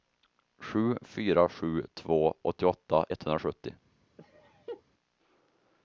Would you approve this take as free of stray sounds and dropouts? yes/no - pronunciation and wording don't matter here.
no